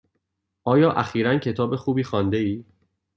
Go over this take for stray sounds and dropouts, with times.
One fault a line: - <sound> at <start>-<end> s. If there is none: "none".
none